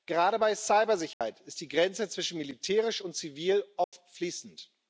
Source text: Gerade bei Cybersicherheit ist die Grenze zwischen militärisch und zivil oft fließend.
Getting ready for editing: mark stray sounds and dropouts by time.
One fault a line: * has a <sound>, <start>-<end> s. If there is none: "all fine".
* has a dropout, 1.1-1.2 s
* has a dropout, 3.8-3.9 s